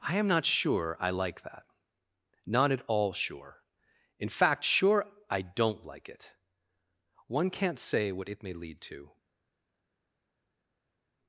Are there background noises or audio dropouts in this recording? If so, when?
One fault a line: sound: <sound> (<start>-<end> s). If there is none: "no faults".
no faults